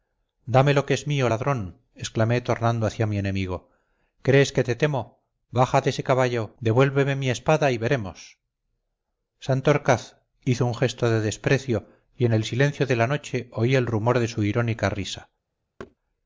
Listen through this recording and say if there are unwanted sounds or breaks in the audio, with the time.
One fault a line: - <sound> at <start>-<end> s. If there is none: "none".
- thud at 15.8-16.0 s